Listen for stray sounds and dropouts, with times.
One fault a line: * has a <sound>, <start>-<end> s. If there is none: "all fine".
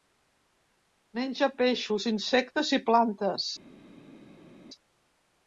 all fine